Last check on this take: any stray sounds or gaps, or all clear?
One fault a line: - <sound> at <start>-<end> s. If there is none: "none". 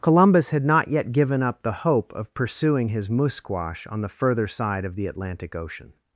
none